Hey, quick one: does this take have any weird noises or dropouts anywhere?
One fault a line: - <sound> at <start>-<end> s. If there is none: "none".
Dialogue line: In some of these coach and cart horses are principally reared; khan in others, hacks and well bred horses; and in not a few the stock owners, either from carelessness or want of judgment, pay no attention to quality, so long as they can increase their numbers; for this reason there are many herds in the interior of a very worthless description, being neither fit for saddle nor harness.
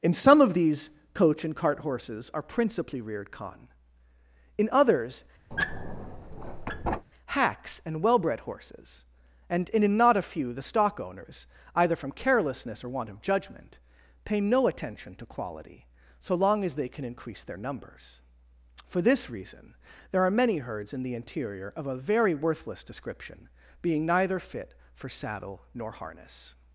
- squeak at 5.5-7.1 s